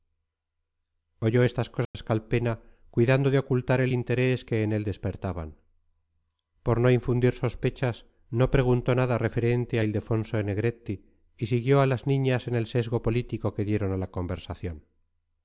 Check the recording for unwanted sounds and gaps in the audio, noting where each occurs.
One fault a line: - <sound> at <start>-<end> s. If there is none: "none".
- dropout at 1.8-1.9 s